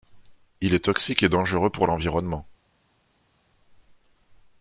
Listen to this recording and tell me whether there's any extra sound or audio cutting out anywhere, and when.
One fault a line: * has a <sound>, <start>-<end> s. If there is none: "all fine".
all fine